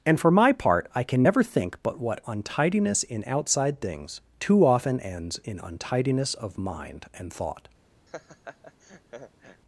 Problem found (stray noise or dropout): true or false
true